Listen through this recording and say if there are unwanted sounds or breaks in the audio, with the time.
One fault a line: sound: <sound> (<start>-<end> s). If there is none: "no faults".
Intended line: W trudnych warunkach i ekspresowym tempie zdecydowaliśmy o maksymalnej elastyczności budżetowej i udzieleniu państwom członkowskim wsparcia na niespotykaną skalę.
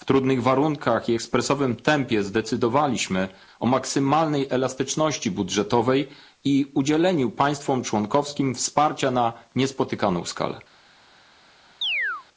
sound: chirp (11.8-12.2 s)